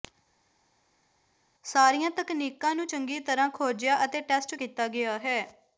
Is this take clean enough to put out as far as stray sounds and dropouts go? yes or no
yes